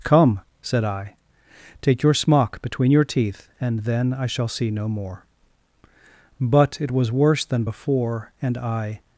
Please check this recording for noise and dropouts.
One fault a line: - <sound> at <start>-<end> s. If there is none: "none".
none